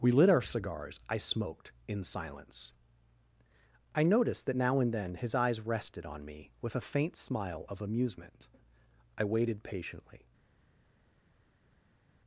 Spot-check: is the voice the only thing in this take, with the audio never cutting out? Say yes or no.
yes